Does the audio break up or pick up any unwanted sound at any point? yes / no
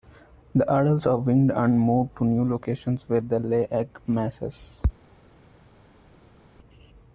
no